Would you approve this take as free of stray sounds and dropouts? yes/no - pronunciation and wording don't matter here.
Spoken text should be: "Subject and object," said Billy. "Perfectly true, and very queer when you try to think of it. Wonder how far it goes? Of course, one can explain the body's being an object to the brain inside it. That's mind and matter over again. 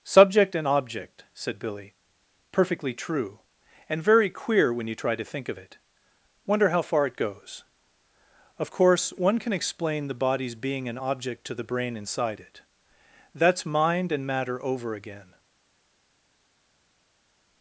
yes